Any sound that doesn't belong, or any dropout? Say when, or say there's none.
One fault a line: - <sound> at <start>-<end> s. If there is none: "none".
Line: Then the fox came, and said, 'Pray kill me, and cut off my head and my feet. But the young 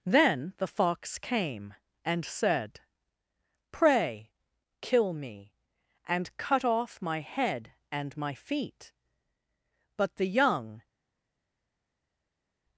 none